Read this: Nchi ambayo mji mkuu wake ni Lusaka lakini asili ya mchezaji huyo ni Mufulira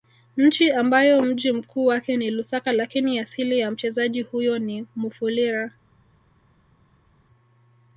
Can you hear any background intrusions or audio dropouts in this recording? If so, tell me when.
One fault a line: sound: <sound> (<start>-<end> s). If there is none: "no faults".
no faults